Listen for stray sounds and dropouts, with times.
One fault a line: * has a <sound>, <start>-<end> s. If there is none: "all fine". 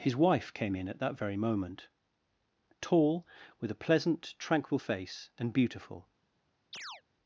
* has a chirp, 6.7-7.0 s